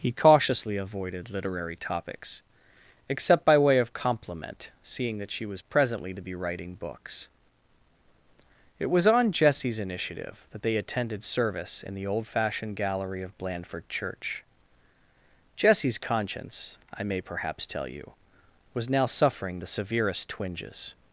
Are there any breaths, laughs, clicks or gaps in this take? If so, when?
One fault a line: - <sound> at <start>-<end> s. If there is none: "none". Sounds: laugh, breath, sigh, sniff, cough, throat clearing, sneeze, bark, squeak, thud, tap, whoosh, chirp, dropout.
none